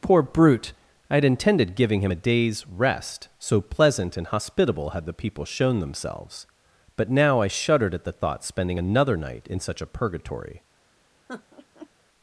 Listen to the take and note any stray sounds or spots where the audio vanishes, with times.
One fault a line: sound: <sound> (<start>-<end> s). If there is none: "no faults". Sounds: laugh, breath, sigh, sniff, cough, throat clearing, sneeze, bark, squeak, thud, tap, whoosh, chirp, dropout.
sound: laugh (11.3-11.9 s)